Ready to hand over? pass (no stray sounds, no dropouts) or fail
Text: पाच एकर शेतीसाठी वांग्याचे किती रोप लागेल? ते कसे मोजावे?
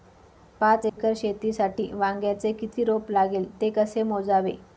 fail